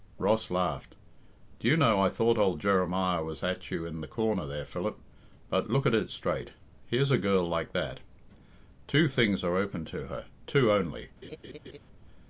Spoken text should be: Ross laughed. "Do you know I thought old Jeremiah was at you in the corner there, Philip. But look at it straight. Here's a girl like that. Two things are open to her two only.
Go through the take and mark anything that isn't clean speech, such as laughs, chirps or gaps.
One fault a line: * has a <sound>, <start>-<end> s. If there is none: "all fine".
* has a laugh, 11.2-11.8 s